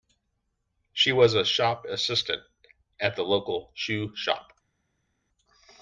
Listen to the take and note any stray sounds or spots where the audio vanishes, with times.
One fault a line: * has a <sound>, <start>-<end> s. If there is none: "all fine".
all fine